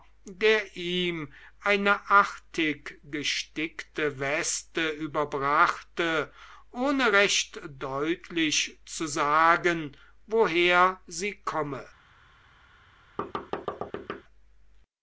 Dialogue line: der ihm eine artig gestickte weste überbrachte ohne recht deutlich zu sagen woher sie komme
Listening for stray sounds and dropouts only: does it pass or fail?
fail